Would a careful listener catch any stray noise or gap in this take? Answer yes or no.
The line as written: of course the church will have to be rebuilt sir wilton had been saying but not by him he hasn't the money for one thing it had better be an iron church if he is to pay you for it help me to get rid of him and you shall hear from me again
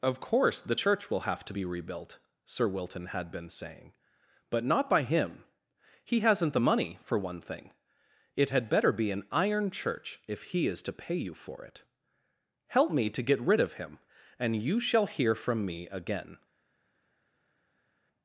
no